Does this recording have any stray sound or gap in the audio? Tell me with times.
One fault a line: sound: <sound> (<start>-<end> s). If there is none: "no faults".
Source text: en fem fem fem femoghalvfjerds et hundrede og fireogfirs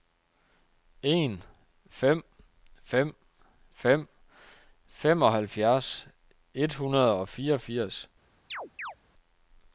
sound: chirp (8.5-9.0 s)